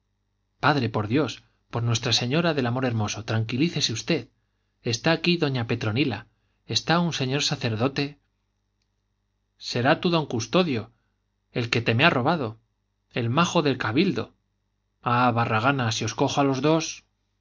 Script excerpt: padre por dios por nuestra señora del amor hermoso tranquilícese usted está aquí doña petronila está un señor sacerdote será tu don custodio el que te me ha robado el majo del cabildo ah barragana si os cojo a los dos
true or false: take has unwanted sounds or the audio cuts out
false